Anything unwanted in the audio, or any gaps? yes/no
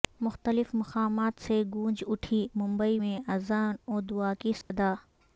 yes